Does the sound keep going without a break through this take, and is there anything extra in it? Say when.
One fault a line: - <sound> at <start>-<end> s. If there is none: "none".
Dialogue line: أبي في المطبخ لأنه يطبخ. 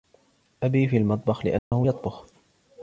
- dropout at 1.6-1.7 s